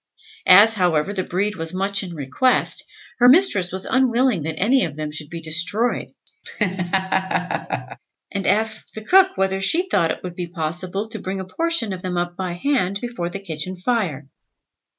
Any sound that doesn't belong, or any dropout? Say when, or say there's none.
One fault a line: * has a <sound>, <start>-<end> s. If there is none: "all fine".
* has a laugh, 6.4-8.0 s